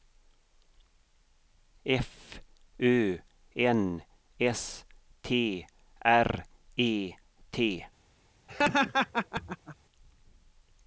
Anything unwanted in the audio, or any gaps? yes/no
yes